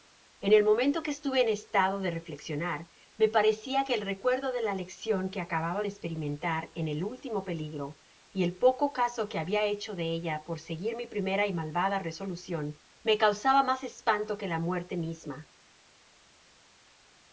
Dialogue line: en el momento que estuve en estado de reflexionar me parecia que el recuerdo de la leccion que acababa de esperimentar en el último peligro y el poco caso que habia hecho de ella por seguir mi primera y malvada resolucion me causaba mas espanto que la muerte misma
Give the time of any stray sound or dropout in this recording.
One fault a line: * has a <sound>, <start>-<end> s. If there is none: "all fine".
all fine